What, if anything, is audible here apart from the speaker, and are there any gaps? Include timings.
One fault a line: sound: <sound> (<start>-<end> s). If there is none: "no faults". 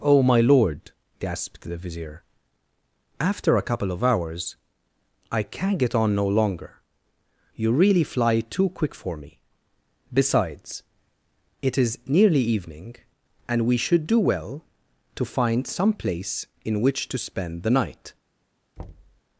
sound: thud (18.8-19.2 s)